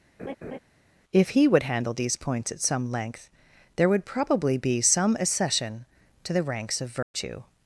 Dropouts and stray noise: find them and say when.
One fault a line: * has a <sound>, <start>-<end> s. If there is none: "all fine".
* has a laugh, 0.2-0.6 s
* has a dropout, 7.0-7.1 s